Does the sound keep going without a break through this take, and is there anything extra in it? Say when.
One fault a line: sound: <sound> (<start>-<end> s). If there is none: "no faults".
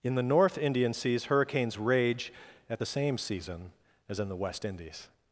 no faults